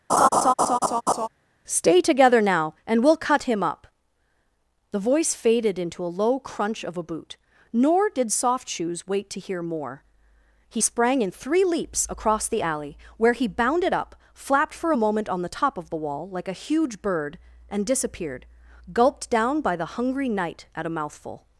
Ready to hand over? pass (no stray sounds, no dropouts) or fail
fail